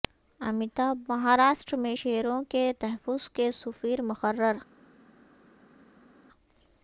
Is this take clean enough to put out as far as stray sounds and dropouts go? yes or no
yes